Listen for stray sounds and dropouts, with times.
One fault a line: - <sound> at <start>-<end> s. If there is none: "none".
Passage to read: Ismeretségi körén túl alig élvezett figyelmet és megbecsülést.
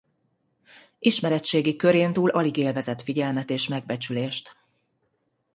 none